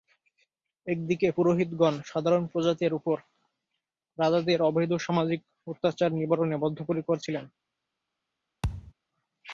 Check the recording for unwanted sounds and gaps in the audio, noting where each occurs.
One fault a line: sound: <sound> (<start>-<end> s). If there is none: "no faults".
sound: thud (8.6-8.9 s)